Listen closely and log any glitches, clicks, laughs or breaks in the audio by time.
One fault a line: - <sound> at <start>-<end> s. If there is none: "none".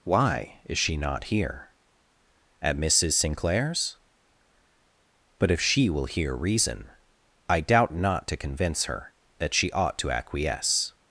none